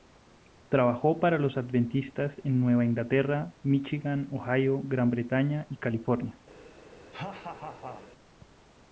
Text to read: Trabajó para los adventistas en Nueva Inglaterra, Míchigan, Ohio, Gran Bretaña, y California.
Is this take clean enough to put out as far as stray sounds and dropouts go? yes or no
no